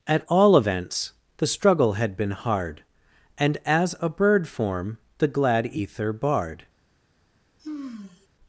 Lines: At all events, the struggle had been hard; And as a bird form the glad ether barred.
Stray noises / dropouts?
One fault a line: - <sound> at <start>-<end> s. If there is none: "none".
- sigh at 7.6-8.3 s